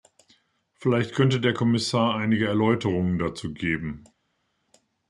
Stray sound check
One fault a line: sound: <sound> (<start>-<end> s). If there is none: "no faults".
no faults